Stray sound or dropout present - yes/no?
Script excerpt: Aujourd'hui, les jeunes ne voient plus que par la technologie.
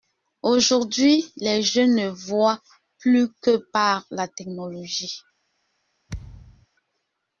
yes